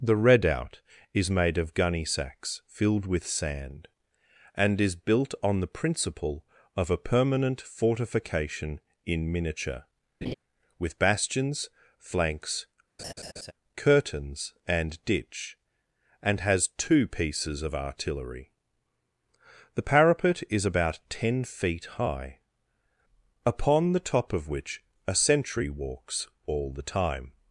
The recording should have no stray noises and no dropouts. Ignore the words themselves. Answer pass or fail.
fail